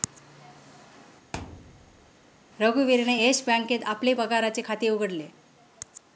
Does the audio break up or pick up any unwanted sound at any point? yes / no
yes